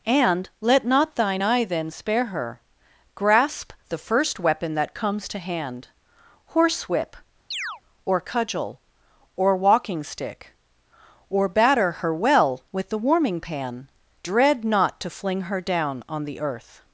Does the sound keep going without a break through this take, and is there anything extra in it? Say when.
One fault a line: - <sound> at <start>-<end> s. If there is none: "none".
- chirp at 7.5-7.8 s